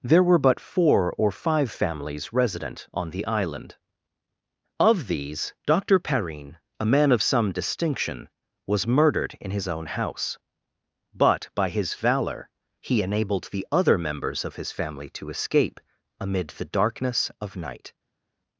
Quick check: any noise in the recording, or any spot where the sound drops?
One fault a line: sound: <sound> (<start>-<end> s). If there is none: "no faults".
no faults